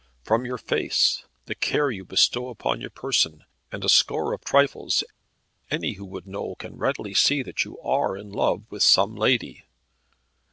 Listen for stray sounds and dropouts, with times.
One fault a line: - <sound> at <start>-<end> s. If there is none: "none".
none